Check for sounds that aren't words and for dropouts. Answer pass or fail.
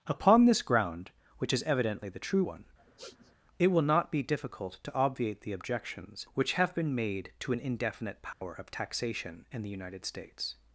fail